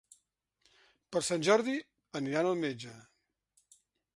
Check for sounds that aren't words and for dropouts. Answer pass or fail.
pass